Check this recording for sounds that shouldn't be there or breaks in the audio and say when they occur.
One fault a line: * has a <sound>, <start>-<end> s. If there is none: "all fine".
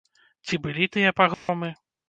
* has a dropout, 1.3-1.5 s